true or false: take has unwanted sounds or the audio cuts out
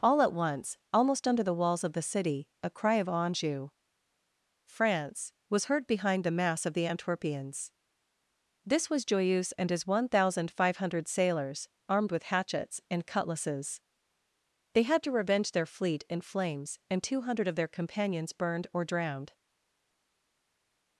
false